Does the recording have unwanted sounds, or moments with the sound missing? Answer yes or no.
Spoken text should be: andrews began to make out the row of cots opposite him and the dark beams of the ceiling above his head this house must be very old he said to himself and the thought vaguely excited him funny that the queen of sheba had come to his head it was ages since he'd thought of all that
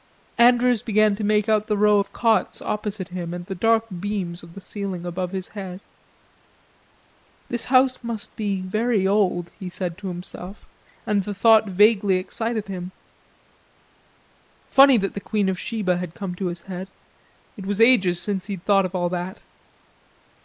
no